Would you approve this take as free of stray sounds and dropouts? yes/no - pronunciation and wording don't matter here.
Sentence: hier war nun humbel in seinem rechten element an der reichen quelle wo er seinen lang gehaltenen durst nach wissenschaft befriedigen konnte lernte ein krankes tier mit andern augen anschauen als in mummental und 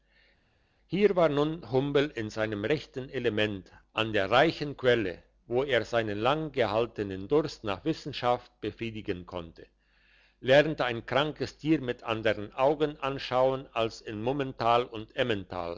yes